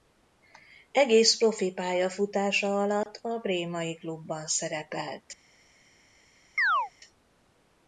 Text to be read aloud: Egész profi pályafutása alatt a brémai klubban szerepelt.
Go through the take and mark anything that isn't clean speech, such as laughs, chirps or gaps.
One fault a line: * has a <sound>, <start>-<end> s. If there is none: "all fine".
* has a dropout, 3.0-3.1 s
* has a chirp, 6.6-6.9 s